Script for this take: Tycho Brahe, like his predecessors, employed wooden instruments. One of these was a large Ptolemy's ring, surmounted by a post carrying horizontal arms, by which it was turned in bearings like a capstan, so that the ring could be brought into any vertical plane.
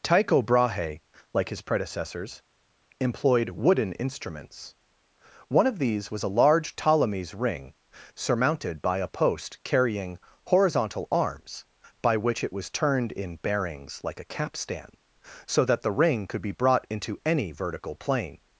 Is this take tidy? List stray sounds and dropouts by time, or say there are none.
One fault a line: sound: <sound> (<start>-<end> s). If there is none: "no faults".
no faults